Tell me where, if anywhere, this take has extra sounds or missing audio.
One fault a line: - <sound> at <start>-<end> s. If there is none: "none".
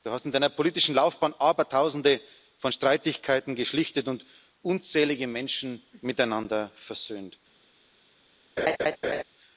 - laugh at 8.6-9.2 s